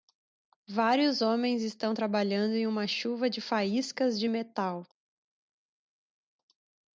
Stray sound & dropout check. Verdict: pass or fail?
pass